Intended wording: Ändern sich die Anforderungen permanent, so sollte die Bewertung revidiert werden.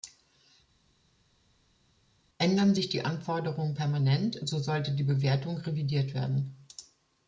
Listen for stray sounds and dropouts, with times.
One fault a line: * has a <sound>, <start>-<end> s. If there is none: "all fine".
all fine